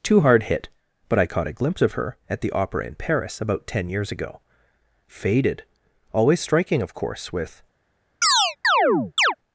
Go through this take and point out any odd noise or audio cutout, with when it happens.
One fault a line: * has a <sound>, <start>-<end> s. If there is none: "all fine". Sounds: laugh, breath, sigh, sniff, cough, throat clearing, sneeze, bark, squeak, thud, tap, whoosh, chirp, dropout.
* has a chirp, 8.2-9.4 s